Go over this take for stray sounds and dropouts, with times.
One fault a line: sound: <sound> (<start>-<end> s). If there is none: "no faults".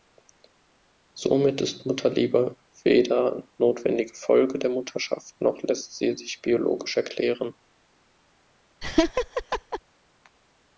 sound: laugh (8.8-9.8 s)